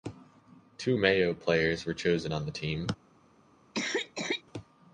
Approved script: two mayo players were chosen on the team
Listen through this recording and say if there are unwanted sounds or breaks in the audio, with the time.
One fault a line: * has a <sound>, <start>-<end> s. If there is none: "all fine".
* has a cough, 3.7-4.4 s